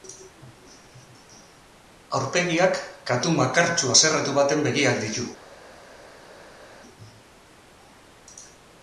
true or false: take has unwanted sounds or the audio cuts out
false